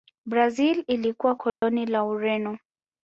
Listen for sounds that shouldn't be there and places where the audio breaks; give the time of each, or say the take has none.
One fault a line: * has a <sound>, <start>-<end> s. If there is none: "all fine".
* has a dropout, 1.5-1.6 s